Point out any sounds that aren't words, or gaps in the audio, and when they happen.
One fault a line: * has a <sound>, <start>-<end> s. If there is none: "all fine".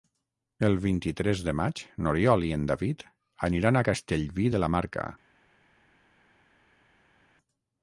all fine